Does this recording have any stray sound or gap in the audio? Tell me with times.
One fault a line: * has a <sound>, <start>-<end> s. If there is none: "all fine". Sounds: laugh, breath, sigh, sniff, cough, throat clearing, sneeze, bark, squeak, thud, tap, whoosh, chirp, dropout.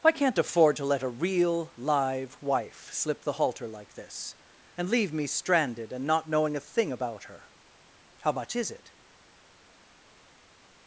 all fine